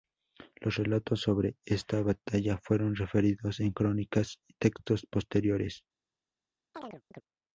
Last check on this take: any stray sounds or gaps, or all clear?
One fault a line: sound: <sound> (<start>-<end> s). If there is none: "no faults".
sound: chirp (6.7-7.2 s)